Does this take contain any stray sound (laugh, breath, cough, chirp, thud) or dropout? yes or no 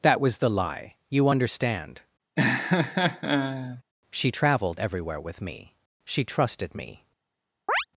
yes